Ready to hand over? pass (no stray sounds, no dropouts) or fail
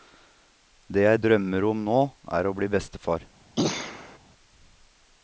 fail